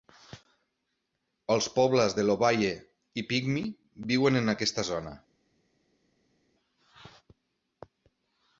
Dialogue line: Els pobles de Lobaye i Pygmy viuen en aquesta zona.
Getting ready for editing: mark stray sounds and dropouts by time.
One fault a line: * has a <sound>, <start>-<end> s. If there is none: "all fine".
all fine